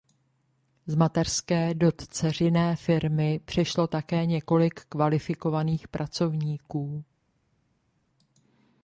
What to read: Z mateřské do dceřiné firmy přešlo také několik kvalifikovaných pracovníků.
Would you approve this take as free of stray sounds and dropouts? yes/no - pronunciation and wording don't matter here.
yes